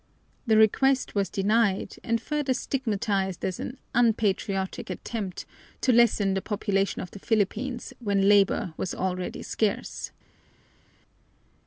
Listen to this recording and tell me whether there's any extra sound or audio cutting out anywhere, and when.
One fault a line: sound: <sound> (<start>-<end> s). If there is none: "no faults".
no faults